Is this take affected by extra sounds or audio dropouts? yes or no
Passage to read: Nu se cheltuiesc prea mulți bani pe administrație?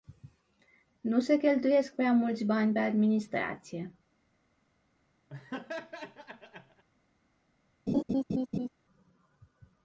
yes